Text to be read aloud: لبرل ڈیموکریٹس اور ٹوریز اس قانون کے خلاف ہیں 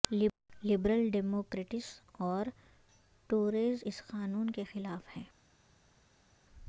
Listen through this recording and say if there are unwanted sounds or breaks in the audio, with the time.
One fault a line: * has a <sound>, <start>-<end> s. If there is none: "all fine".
all fine